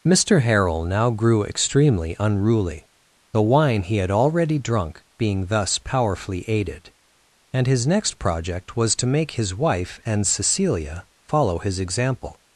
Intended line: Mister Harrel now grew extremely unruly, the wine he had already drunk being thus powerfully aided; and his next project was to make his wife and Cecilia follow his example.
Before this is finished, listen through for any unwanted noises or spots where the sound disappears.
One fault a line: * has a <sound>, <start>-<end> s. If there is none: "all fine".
all fine